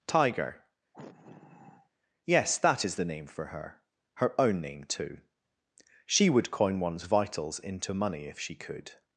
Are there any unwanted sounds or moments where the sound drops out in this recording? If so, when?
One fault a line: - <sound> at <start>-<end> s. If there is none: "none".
- sigh at 0.9-1.9 s